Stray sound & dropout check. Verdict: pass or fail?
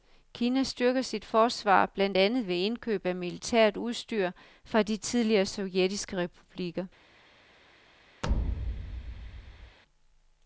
fail